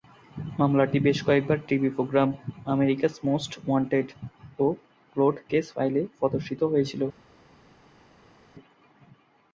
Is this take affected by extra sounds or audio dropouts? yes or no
no